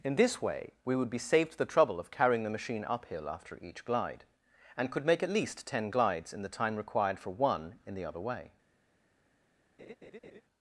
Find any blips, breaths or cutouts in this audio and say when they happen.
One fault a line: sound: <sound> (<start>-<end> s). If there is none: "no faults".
sound: laugh (9.8-10.4 s)